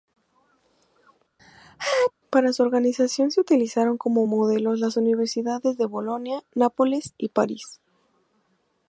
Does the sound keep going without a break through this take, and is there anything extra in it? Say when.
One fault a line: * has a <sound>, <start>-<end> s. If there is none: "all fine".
* has a sneeze, 1.4-2.1 s